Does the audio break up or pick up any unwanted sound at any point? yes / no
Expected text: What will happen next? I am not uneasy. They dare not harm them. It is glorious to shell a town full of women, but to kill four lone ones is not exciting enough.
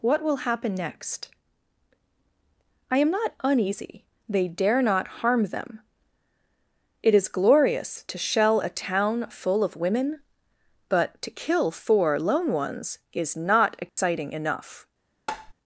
yes